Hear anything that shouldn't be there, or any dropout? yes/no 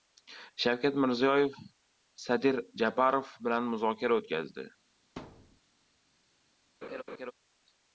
yes